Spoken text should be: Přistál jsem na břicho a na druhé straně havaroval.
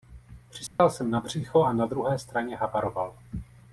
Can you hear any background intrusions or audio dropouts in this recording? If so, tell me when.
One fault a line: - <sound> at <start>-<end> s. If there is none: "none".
- dropout at 0.7-0.8 s